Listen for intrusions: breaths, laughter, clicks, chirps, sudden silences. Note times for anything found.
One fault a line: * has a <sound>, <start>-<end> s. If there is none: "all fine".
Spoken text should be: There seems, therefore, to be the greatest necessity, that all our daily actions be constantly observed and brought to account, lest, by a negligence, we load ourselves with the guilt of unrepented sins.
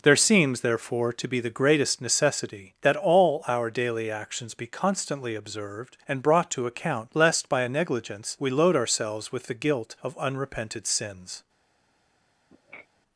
* has a sniff, 12.5-12.9 s